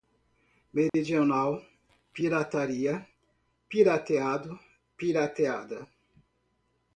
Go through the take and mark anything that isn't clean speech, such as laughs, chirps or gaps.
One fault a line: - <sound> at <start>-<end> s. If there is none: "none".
- dropout at 0.9-0.9 s